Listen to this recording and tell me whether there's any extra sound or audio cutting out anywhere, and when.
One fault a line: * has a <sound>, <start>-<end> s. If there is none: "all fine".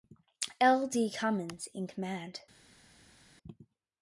all fine